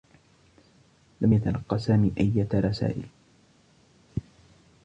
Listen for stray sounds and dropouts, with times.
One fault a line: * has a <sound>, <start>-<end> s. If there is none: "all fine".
all fine